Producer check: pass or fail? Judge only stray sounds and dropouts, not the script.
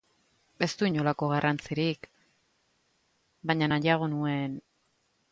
pass